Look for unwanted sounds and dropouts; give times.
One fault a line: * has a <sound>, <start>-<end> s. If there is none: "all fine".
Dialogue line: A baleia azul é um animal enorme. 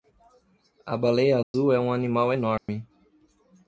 * has a dropout, 1.4-1.5 s
* has a dropout, 2.6-2.7 s